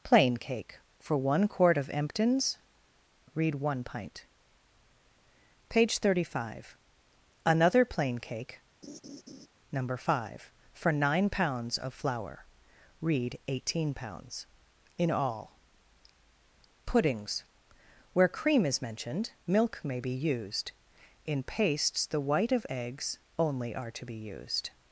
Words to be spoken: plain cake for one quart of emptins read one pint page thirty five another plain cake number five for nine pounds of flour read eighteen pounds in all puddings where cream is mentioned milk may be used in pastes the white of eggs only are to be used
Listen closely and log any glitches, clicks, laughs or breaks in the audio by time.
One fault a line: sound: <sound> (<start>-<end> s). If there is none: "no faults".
sound: laugh (8.8-9.5 s)